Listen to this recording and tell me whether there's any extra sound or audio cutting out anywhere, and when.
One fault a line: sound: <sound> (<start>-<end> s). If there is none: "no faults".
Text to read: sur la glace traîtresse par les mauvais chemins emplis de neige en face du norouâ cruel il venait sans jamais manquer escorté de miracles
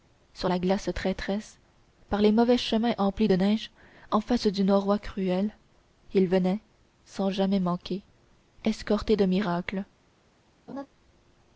sound: laugh (10.7-10.9 s)